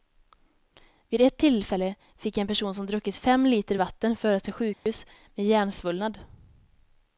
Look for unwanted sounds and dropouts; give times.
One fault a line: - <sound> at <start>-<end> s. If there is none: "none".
- dropout at 4.7-4.9 s